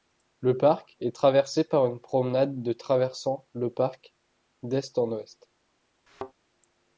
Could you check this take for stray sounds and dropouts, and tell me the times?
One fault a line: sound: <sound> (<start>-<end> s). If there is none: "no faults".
sound: thud (6.1-6.3 s)